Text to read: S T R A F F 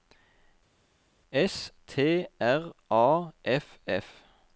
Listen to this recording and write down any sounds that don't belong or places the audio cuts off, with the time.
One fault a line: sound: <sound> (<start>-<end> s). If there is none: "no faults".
no faults